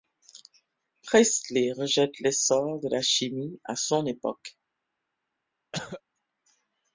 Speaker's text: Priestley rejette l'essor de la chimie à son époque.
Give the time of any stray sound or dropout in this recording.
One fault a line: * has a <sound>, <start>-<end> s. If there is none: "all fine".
* has a cough, 5.7-6.0 s